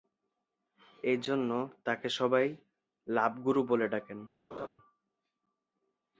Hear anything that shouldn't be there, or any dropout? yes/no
yes